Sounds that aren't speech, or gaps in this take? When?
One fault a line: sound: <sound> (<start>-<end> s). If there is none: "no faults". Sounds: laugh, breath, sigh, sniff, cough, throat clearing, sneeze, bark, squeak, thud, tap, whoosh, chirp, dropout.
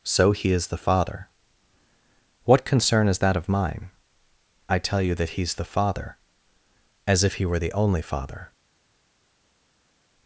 no faults